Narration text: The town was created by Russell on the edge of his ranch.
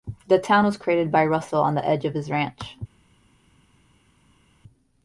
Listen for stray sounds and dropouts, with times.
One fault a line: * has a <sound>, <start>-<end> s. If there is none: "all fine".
all fine